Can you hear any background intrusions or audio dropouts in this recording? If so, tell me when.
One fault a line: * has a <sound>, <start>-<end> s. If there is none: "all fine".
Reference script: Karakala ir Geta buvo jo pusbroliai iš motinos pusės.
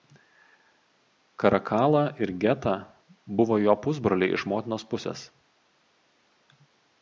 all fine